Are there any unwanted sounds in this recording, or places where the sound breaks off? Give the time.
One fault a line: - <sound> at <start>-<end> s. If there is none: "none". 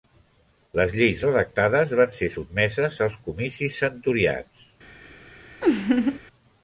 - laugh at 5.6-6.2 s